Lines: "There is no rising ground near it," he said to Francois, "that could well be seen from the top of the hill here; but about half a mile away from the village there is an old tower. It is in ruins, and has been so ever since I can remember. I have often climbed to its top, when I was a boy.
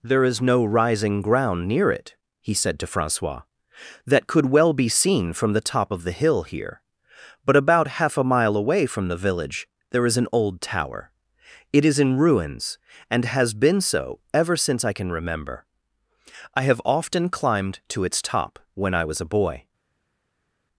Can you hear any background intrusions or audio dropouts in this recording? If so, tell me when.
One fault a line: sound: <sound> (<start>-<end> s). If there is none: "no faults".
no faults